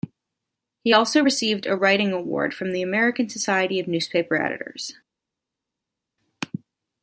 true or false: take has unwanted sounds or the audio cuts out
false